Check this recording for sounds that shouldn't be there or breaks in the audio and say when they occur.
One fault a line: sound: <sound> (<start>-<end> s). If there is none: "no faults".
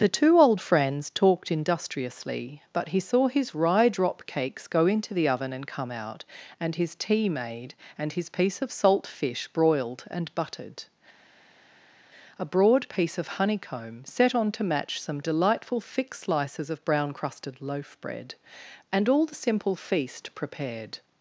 no faults